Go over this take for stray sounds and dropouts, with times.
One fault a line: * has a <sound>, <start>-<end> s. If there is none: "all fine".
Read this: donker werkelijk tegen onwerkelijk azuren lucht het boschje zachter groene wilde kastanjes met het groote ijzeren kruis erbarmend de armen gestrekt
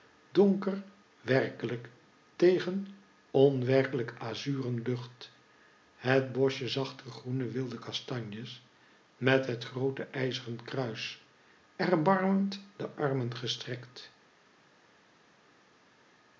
all fine